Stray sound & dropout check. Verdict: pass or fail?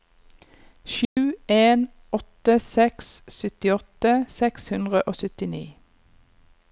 fail